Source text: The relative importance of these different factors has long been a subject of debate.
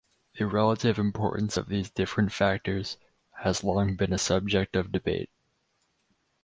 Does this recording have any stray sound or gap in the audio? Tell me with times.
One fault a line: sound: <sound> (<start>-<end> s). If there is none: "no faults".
no faults